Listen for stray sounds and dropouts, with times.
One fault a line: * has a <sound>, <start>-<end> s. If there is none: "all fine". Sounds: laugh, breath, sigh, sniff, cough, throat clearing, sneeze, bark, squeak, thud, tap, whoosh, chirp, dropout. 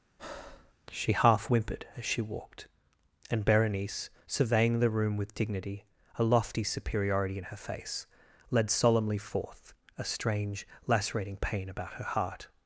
* has a breath, 0.2-0.7 s